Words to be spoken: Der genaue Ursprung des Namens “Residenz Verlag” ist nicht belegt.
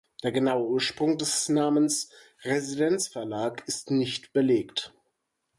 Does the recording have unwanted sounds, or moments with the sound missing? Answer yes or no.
no